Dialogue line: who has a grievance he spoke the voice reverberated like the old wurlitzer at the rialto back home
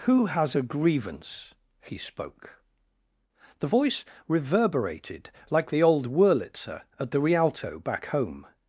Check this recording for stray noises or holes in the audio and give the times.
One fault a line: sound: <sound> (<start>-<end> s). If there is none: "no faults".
no faults